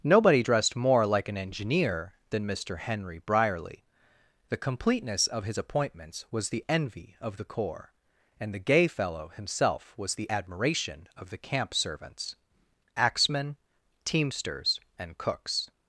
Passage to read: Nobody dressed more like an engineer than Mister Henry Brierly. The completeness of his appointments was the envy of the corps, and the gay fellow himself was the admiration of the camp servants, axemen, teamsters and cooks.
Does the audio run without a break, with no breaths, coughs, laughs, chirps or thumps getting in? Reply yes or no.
yes